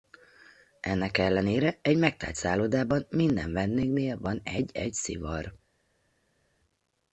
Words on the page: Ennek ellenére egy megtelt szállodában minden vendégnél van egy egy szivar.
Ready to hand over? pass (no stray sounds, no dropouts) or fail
pass